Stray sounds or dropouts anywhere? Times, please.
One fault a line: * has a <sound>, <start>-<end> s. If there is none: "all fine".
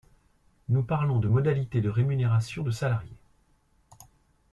all fine